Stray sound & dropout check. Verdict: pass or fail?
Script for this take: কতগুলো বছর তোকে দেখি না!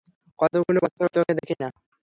pass